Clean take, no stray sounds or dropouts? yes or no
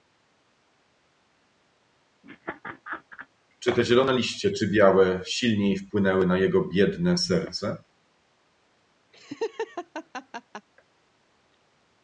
no